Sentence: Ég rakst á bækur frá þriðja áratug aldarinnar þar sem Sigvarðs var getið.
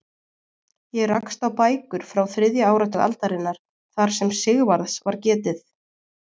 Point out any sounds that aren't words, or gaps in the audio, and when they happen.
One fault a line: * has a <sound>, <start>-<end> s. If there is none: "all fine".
all fine